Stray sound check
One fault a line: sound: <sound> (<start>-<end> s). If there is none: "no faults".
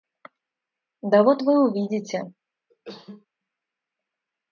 sound: cough (2.7-3.3 s)